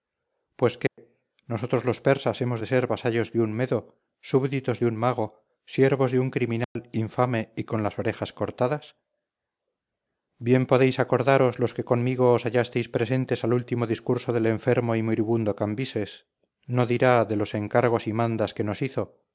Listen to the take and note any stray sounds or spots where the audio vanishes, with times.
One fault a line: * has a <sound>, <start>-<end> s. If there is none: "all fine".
* has a dropout, 0.9-1.0 s
* has a dropout, 6.6-6.8 s